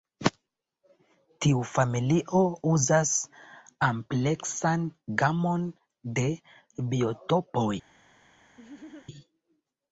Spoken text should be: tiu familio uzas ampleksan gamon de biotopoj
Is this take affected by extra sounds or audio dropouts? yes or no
yes